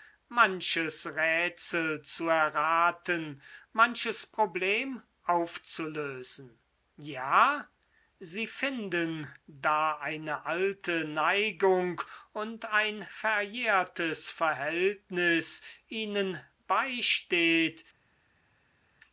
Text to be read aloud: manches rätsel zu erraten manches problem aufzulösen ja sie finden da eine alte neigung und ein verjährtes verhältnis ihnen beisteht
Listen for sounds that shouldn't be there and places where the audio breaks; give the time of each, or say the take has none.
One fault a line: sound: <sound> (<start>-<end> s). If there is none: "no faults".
no faults